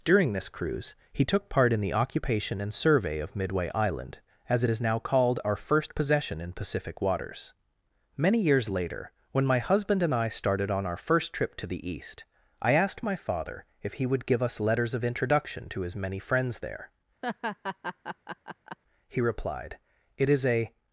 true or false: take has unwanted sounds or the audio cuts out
true